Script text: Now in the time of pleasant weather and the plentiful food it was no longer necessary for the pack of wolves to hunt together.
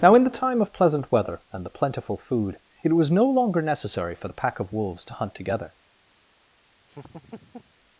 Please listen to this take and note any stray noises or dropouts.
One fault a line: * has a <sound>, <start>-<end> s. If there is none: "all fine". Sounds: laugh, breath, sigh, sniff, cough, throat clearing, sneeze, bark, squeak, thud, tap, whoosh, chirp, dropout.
* has a laugh, 6.9-7.7 s